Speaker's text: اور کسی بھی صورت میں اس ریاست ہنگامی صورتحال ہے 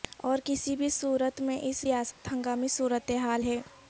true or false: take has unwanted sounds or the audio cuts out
true